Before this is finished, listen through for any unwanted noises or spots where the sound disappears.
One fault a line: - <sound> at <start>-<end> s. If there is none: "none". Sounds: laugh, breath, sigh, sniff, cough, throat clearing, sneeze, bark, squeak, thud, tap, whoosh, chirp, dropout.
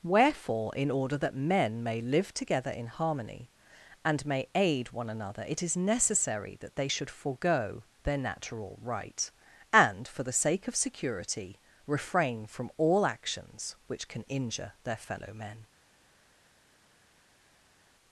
none